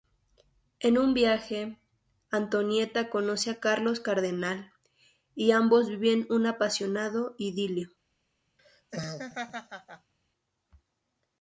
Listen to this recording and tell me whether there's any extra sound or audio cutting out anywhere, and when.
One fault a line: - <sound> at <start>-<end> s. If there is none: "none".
- laugh at 8.6-10.1 s